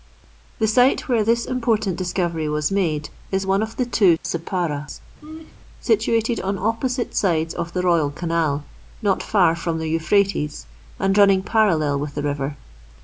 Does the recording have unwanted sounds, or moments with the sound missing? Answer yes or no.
yes